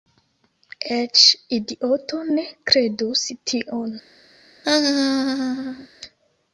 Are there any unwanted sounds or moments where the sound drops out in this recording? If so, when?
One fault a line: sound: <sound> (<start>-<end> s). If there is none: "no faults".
sound: laugh (4.6-5.9 s)